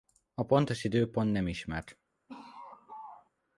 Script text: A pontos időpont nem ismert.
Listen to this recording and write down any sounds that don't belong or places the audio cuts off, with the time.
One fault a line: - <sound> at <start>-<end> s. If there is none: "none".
- laugh at 2.3-3.3 s